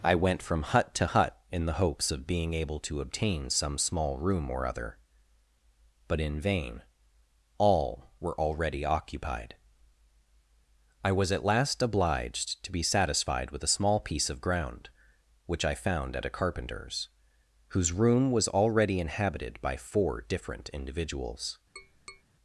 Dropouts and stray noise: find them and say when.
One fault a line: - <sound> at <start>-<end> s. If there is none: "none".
- tap at 21.8-22.2 s